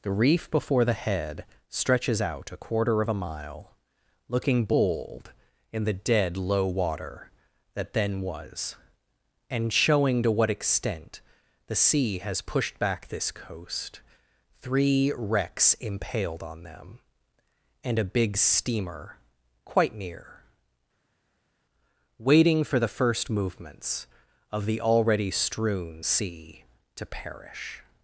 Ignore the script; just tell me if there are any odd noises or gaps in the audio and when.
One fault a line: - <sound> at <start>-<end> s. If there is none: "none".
none